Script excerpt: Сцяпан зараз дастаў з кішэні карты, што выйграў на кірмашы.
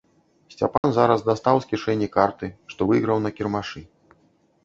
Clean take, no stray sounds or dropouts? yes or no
no